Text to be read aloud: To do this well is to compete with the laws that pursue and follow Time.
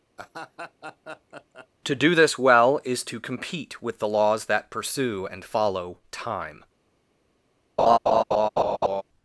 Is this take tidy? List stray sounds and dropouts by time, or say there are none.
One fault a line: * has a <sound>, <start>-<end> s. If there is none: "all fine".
* has a laugh, 0.2-1.7 s
* has a laugh, 7.8-9.0 s